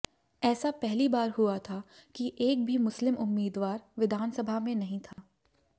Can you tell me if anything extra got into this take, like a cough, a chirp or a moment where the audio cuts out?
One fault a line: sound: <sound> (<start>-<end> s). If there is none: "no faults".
sound: dropout (5.1-5.2 s)